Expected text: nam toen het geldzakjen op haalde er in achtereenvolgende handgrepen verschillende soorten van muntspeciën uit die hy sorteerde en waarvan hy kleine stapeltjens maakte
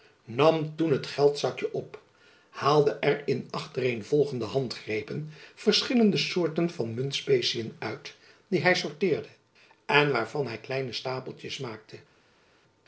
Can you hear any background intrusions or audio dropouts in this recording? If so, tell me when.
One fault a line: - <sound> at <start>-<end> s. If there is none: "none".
none